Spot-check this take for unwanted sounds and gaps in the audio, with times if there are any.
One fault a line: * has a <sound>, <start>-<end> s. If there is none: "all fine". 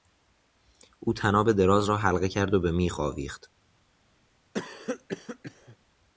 * has a cough, 4.5-5.8 s